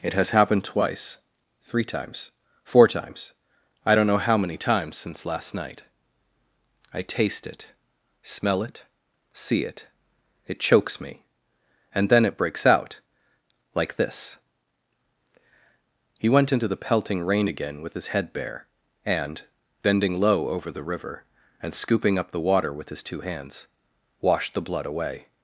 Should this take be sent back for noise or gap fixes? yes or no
no